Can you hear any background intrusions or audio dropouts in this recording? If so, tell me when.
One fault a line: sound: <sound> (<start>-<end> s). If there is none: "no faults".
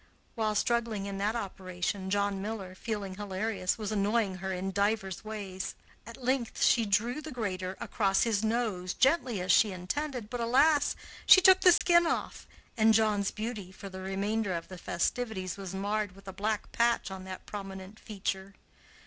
sound: dropout (11.8-11.8 s)